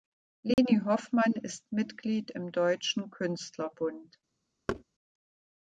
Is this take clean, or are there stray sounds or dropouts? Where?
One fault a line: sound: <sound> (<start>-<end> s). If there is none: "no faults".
sound: dropout (0.5-0.6 s)
sound: thud (4.7-4.8 s)